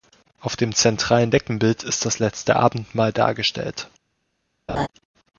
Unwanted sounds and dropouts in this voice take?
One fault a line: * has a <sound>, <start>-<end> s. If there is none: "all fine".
* has a laugh, 4.7-4.9 s